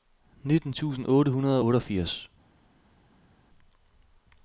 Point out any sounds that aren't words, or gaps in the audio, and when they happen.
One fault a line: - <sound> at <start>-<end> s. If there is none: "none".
none